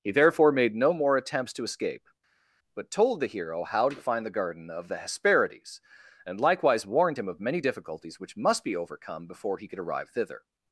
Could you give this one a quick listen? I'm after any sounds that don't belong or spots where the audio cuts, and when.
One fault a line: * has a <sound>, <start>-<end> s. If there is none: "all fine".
all fine